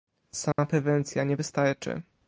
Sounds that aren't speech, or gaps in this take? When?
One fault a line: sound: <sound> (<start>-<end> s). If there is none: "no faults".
sound: dropout (0.5-0.6 s)